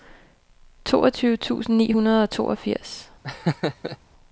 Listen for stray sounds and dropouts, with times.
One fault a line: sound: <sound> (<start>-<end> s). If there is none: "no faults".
sound: laugh (3.2-4.0 s)